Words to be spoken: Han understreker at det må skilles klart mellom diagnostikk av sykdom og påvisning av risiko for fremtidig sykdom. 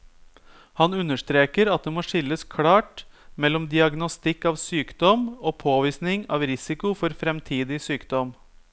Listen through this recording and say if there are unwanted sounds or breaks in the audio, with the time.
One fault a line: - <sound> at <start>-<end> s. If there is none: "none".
none